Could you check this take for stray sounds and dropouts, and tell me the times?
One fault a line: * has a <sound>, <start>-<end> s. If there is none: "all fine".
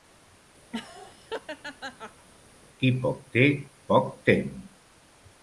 * has a laugh, 0.7-2.3 s